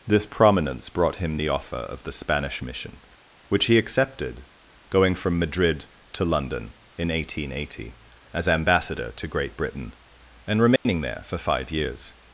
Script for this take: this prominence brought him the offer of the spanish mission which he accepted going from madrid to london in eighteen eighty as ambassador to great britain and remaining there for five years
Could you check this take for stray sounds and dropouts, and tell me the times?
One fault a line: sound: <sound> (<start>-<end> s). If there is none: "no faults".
sound: dropout (10.8-10.9 s)